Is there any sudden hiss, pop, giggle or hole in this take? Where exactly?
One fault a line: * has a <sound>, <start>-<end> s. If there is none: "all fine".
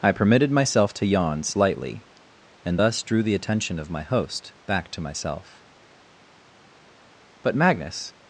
all fine